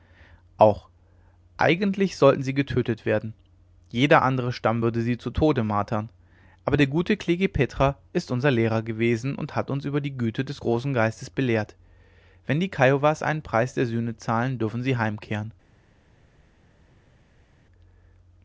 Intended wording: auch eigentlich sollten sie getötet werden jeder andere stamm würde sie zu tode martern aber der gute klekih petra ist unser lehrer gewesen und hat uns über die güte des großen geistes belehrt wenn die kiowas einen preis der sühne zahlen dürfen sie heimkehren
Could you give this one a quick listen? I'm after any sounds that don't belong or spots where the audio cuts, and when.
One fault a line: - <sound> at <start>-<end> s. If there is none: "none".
none